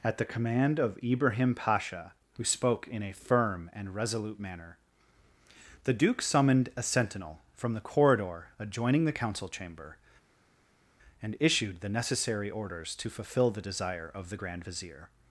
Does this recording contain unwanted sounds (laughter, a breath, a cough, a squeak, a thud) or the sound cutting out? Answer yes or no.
no